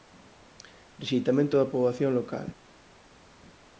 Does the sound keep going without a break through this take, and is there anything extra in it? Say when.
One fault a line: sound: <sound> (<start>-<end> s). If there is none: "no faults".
no faults